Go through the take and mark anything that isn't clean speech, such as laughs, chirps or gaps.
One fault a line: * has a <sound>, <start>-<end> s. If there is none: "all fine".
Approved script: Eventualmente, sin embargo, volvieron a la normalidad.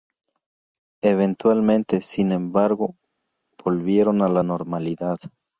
all fine